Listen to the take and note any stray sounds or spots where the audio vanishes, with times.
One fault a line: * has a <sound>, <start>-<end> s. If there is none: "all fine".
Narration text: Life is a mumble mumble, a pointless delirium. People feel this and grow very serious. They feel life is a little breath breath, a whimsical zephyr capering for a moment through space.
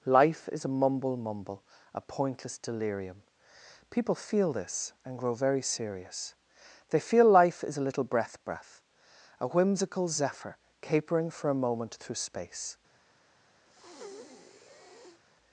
* has a breath, 13.7-15.2 s